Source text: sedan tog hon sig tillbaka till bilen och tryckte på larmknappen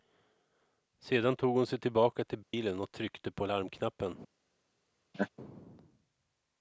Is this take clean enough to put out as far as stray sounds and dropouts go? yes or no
no